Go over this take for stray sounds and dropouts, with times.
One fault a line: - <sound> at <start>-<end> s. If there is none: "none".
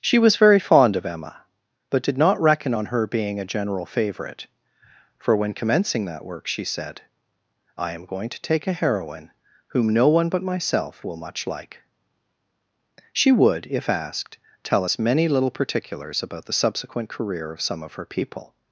none